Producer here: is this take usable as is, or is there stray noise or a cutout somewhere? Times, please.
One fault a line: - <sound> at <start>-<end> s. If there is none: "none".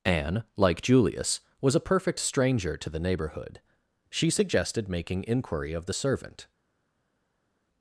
none